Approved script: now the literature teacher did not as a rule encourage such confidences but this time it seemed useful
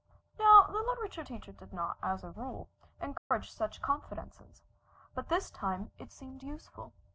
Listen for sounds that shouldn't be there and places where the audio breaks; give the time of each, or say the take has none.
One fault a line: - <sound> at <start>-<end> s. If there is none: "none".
- dropout at 3.2-3.3 s